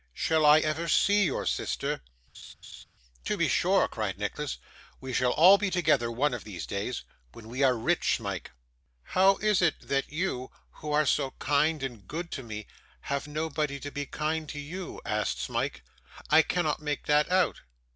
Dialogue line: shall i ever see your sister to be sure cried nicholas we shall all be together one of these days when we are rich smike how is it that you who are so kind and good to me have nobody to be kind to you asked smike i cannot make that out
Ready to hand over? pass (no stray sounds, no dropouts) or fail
fail